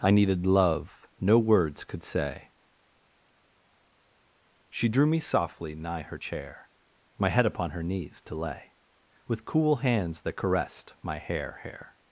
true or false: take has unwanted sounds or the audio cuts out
false